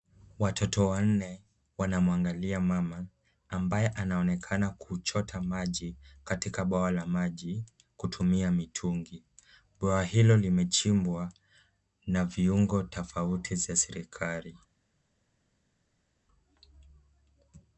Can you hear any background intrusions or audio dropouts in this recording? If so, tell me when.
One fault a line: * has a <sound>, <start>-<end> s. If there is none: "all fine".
all fine